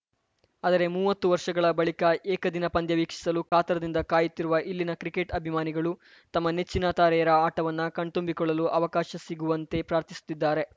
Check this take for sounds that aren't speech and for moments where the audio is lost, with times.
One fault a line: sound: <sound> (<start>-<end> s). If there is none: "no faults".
sound: dropout (3.5-3.5 s)